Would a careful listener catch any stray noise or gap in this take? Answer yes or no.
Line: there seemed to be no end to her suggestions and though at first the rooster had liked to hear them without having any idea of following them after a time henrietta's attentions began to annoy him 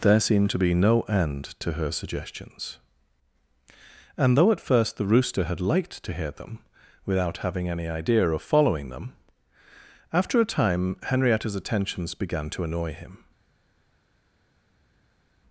no